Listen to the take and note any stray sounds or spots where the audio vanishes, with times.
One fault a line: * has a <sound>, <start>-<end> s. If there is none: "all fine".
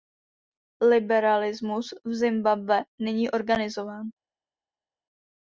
all fine